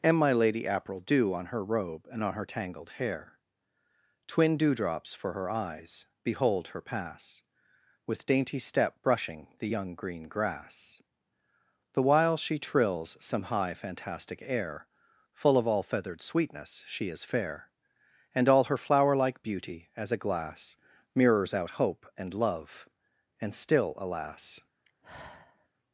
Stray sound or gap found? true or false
true